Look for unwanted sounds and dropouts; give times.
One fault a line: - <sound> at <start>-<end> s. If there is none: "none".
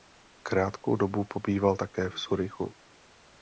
none